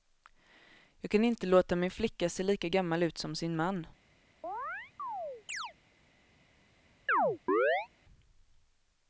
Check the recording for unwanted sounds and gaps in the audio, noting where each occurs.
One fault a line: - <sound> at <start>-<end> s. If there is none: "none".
- chirp at 4.4-5.7 s
- chirp at 7.1-7.9 s